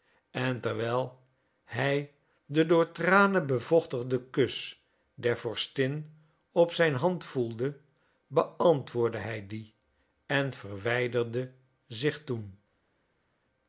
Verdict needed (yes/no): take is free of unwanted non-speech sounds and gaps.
yes